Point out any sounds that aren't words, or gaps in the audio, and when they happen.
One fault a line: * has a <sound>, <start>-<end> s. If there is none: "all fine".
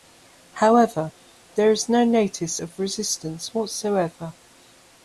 all fine